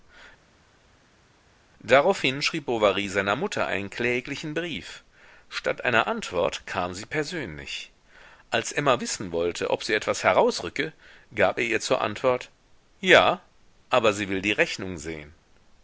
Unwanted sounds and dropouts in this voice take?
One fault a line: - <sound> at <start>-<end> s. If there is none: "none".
none